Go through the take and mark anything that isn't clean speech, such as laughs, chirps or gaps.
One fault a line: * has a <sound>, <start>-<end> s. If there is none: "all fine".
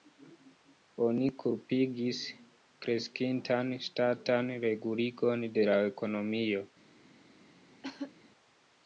* has a cough, 7.8-8.1 s